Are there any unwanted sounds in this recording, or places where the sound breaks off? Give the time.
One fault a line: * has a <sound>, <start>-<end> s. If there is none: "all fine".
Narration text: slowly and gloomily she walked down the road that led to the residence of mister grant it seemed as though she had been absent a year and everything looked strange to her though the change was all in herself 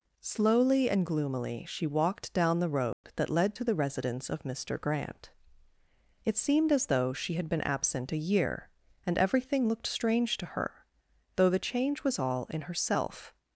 * has a dropout, 2.9-3.0 s